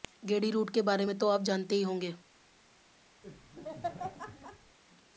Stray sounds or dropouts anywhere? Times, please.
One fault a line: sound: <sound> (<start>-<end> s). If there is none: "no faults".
sound: laugh (3.2-4.8 s)